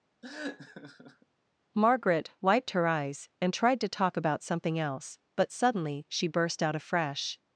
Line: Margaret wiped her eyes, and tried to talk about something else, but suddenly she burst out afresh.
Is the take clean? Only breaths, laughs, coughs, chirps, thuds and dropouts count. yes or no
no